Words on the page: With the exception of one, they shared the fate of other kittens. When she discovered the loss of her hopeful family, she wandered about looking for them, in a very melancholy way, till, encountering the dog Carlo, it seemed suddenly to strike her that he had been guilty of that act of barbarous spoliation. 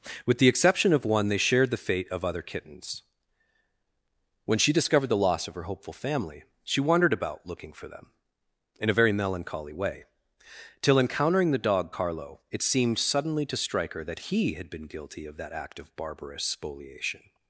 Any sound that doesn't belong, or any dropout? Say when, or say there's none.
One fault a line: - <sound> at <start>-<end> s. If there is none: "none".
none